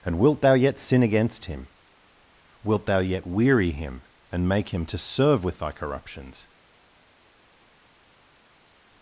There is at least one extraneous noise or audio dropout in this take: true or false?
false